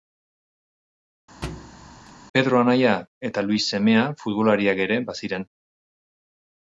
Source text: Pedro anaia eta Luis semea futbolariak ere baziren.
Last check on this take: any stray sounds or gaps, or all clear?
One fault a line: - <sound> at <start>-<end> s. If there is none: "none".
- thud at 1.4-2.1 s